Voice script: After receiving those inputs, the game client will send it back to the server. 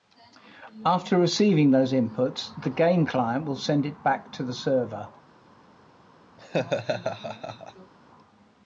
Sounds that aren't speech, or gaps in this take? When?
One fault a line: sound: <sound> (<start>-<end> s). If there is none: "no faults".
sound: laugh (6.4-7.9 s)